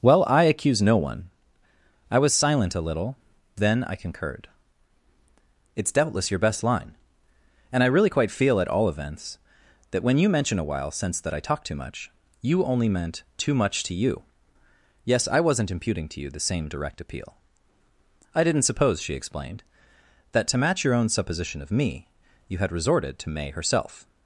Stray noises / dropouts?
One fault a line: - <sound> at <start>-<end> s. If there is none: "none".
none